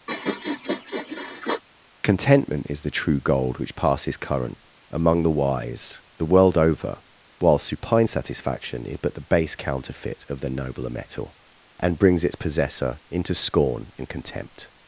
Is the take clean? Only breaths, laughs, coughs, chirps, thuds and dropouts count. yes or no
no